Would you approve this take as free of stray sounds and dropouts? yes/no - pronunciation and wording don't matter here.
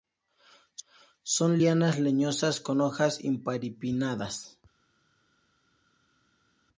yes